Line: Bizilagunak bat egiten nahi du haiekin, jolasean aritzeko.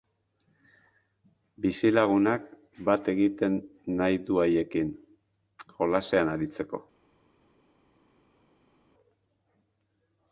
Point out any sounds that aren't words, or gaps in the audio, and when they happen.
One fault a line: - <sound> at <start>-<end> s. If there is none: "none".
none